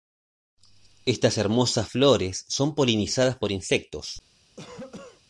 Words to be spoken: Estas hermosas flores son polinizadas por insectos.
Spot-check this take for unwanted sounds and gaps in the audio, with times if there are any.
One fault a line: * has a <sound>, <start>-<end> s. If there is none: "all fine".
* has a cough, 4.6-5.2 s